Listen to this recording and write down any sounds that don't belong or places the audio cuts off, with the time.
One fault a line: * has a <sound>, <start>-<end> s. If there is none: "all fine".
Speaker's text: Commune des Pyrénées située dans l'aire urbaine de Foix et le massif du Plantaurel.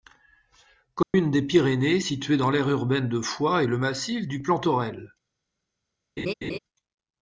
* has a dropout, 1.0-1.1 s
* has a laugh, 6.2-6.6 s